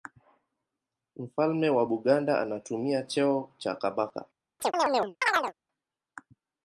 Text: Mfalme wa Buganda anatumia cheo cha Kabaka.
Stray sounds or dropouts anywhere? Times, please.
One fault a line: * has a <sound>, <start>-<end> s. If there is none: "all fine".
* has a chirp, 4.6-5.5 s